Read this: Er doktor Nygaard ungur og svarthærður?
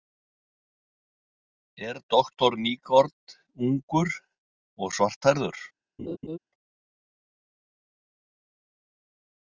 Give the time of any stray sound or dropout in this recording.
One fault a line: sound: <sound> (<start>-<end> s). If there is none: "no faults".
sound: laugh (6.0-6.4 s)